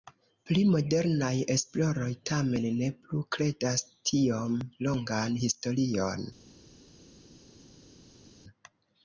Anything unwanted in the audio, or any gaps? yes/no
no